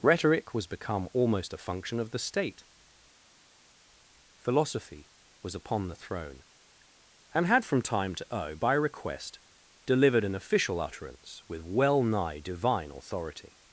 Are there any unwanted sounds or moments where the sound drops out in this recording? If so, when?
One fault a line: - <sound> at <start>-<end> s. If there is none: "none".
none